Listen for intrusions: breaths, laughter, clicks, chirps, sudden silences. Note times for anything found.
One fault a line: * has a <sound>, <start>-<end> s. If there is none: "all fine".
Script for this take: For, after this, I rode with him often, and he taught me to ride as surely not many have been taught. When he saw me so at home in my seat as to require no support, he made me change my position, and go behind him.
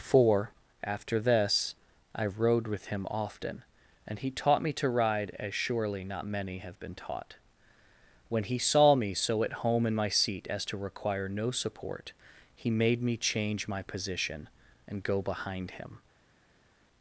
all fine